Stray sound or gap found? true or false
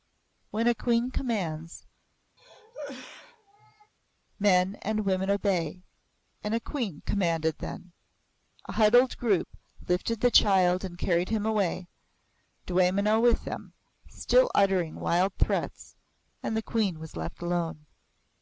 true